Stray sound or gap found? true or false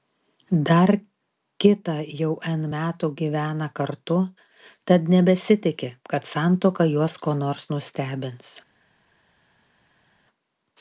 false